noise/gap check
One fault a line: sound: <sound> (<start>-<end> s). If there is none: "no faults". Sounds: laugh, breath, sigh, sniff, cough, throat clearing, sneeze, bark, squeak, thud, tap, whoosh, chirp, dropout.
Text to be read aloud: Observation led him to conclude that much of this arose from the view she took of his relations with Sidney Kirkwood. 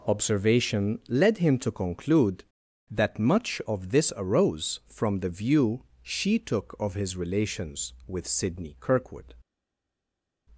no faults